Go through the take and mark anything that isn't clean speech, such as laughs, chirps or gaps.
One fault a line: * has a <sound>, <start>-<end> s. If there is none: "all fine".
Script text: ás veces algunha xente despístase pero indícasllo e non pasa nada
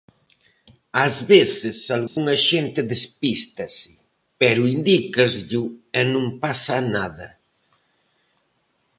* has a dropout, 2.1-2.2 s